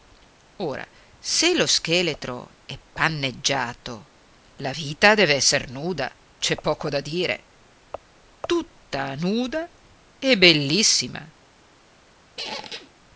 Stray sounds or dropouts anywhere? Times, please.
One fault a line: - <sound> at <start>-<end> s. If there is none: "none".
- squeak at 12.4-12.9 s